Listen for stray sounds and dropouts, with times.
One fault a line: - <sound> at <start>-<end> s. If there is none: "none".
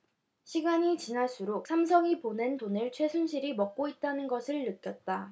none